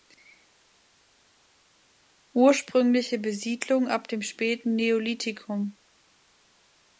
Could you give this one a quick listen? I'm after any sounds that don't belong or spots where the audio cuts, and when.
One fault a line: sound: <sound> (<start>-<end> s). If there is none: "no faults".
no faults